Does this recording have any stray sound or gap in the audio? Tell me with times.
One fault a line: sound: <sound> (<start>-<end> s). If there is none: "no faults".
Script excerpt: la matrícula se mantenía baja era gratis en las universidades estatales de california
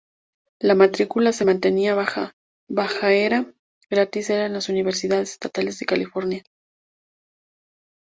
no faults